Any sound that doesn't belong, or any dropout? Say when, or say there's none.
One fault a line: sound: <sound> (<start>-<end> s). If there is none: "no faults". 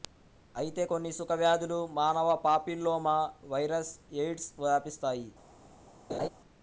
sound: laugh (6.1-6.3 s)